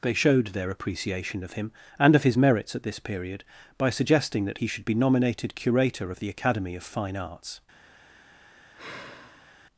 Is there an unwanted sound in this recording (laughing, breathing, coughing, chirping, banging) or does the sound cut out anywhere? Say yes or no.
yes